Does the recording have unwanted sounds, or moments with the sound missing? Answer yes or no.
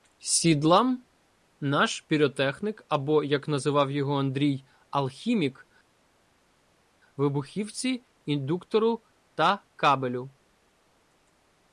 no